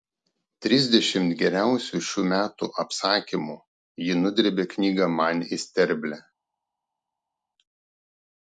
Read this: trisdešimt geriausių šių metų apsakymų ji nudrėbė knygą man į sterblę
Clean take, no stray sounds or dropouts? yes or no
yes